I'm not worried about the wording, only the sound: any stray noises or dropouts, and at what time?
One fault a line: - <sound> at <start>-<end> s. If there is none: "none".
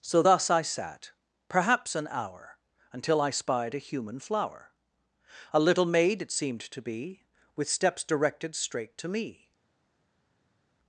none